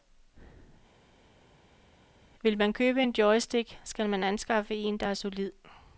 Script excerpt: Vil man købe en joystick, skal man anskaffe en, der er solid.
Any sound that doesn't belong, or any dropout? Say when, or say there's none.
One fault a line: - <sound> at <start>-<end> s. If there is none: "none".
none